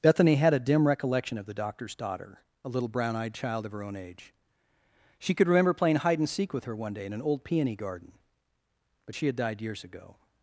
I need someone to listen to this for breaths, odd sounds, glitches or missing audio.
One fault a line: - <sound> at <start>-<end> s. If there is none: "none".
none